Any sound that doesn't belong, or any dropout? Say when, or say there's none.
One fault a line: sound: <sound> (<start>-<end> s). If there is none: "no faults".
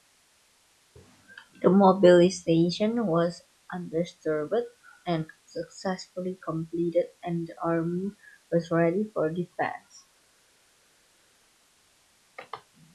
no faults